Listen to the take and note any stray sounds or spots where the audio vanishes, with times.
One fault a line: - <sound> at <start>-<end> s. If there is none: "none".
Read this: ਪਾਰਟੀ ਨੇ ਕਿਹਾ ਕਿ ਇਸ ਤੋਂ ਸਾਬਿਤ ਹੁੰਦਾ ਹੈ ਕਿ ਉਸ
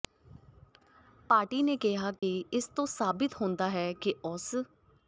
- dropout at 2.2-2.2 s